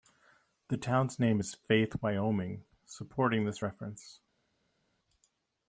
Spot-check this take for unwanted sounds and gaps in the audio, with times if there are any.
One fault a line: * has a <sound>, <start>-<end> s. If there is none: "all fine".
all fine